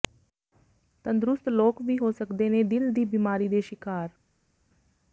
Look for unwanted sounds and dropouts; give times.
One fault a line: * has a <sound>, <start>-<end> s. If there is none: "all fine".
all fine